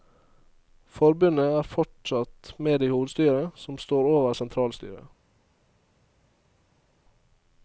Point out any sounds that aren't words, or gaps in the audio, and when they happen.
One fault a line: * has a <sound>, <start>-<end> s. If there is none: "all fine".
all fine